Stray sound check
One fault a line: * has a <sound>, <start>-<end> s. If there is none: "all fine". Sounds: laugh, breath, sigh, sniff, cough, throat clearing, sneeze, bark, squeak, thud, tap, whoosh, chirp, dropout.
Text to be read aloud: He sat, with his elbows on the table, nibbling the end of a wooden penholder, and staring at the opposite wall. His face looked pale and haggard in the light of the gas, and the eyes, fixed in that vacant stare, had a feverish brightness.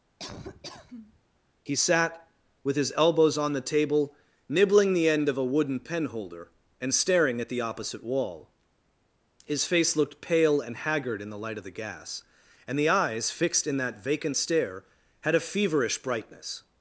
* has a laugh, 0.2-1.2 s